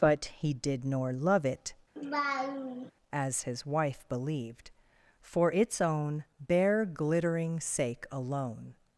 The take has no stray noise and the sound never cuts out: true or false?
false